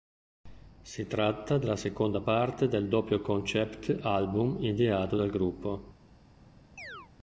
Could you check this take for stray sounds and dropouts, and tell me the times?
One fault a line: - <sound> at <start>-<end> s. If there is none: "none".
- chirp at 6.8-7.1 s